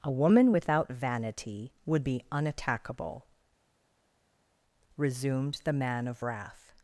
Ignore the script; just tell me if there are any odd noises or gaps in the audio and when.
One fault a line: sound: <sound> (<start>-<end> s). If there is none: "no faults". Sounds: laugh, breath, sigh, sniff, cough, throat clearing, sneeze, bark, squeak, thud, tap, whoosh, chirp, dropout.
no faults